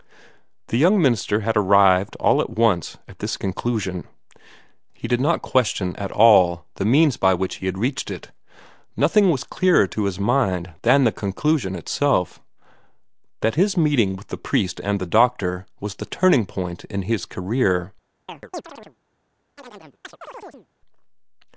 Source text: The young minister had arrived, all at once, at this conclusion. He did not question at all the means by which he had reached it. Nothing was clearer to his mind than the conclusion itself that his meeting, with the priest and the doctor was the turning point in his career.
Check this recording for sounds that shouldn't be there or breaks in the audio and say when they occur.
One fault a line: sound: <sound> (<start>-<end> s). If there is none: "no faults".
sound: chirp (18.3-19.0 s)
sound: chirp (19.6-20.7 s)